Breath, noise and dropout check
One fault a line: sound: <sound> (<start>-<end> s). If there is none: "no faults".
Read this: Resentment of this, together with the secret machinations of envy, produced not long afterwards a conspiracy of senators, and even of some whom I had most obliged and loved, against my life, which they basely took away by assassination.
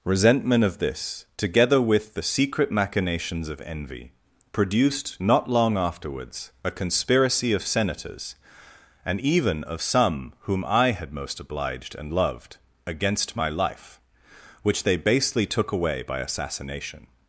no faults